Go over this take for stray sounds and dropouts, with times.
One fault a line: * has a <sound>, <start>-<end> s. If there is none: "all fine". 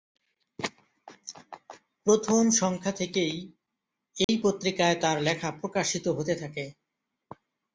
* has a dropout, 4.2-4.3 s